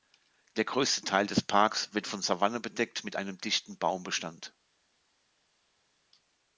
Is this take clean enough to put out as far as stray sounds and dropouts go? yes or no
yes